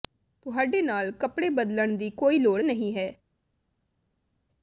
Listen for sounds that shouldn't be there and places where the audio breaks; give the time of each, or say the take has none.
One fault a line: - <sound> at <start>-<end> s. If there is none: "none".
none